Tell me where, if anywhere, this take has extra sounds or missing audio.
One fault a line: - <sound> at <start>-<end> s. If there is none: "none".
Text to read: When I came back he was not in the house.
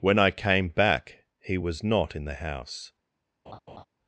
- laugh at 3.5-3.8 s